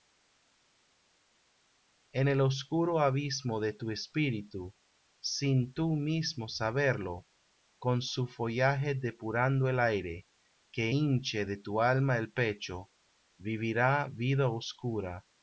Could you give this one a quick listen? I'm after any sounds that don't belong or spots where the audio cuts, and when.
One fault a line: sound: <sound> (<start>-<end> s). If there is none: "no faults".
no faults